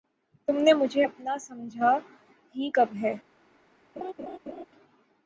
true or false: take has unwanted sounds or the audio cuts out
true